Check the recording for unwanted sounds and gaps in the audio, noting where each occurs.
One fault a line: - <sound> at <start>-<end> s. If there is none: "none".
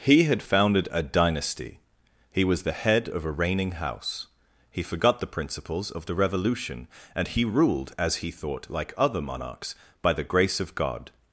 none